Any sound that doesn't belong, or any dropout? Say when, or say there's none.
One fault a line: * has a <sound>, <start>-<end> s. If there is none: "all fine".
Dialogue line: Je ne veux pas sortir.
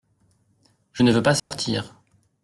* has a dropout, 1.4-1.5 s